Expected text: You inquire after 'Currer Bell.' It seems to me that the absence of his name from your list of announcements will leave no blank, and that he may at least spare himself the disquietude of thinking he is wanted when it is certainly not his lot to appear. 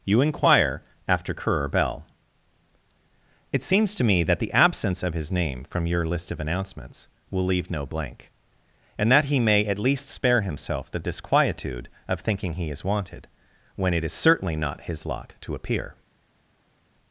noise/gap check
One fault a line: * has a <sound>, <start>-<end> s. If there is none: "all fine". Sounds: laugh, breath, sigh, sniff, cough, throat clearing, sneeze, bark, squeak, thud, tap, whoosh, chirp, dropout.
all fine